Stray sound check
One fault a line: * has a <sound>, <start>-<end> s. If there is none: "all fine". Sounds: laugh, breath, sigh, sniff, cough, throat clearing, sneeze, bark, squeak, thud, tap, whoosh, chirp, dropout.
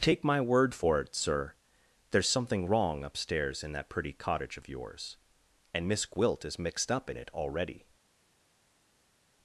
all fine